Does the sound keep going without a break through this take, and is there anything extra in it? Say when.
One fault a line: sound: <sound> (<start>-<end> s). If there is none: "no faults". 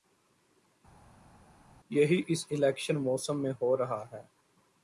no faults